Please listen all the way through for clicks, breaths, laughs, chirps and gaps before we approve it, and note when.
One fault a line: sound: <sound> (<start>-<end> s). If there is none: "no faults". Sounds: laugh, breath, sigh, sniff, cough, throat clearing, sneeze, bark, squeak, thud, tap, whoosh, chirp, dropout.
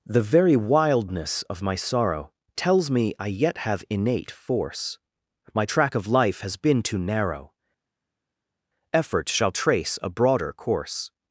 no faults